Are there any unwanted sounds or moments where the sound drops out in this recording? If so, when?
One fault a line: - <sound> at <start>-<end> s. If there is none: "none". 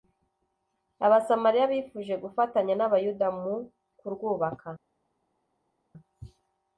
none